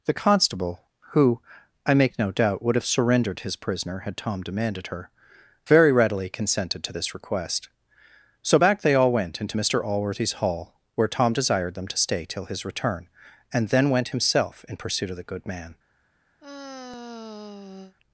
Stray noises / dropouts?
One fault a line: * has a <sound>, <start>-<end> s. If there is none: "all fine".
* has a sigh, 16.4-17.9 s